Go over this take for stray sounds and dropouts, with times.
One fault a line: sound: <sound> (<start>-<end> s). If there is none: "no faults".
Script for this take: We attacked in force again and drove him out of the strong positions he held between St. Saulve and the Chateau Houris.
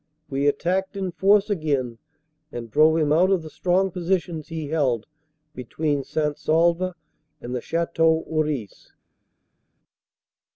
no faults